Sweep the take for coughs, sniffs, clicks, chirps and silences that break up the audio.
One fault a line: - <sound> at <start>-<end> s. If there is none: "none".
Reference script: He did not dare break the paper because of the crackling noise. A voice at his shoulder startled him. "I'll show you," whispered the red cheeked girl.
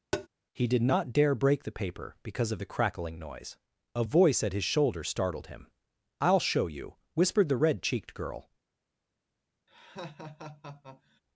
- tap at 0.1-0.3 s
- laugh at 9.7-11.2 s